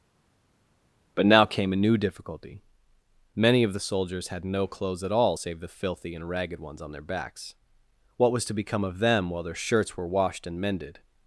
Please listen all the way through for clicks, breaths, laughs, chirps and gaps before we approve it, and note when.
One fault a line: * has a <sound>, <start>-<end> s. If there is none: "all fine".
all fine